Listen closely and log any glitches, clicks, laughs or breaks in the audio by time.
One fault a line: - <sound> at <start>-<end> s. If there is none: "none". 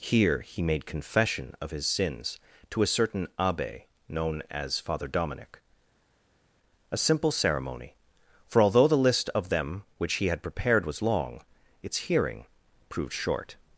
none